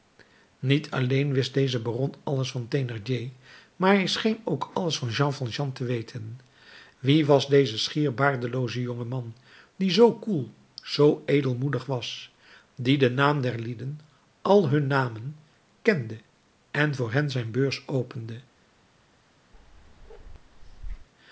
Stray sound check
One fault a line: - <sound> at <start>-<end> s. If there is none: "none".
- bark at 19.5-21.1 s